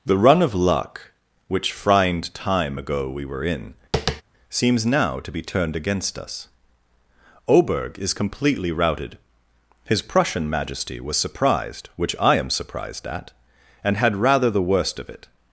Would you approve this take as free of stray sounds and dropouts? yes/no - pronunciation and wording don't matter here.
no